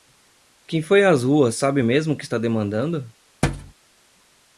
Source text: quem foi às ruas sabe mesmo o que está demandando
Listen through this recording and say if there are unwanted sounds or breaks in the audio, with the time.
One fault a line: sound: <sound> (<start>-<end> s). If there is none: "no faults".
sound: thud (3.4-3.7 s)